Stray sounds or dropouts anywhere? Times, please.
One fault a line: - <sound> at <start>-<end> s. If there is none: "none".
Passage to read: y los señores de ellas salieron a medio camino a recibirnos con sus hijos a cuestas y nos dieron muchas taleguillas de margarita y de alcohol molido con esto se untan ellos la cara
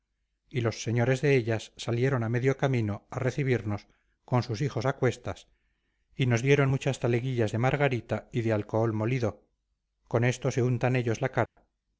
- dropout at 11.5-11.6 s